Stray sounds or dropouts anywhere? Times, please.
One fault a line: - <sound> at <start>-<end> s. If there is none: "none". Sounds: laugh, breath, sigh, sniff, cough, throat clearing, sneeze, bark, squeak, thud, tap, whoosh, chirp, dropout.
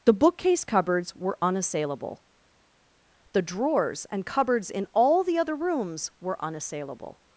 none